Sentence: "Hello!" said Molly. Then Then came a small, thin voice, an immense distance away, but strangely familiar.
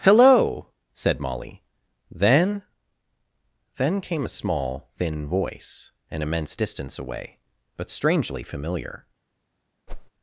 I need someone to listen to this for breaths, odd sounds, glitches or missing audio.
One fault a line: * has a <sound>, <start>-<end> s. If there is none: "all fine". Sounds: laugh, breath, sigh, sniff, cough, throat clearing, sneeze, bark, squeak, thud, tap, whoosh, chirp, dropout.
* has a whoosh, 9.9-10.1 s